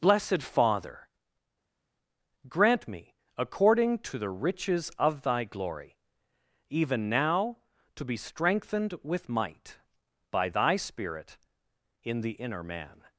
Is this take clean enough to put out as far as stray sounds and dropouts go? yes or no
yes